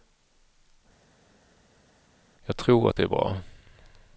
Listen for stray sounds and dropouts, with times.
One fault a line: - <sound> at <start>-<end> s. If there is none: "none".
none